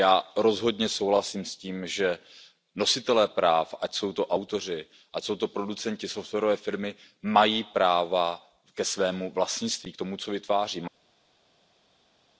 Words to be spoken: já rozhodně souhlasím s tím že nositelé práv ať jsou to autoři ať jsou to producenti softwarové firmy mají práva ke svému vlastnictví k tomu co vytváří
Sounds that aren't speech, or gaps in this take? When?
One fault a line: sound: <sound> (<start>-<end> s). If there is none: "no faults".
no faults